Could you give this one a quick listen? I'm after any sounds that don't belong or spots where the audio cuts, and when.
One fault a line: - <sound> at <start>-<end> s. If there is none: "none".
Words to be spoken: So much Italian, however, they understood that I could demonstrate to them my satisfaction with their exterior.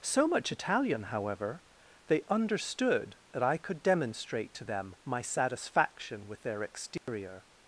- dropout at 7.0-7.1 s